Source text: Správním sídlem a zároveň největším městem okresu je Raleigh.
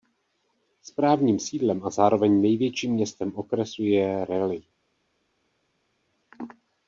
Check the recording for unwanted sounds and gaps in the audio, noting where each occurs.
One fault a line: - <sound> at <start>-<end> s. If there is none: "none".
none